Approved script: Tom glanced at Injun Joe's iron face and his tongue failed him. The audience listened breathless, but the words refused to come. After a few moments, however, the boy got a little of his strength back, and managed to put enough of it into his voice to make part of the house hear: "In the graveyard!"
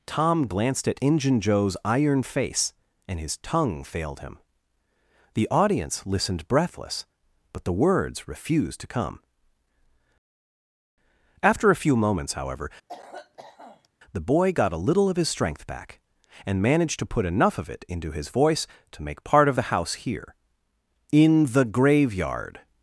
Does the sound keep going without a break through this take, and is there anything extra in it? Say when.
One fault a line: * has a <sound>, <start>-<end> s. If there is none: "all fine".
* has a cough, 12.9-13.9 s